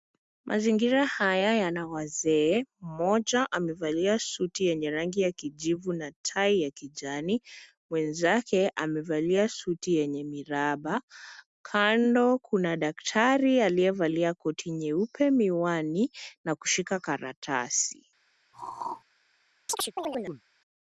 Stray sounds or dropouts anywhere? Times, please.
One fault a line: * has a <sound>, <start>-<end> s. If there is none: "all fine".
* has a throat clearing, 18.5-19.0 s
* has a chirp, 19.7-20.4 s